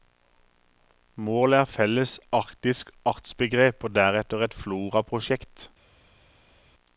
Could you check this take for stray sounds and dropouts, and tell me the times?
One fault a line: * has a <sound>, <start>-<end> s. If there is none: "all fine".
all fine